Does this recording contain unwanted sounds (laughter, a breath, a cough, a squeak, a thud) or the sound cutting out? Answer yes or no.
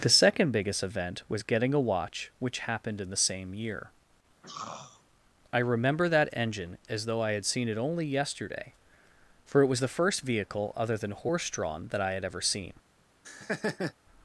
yes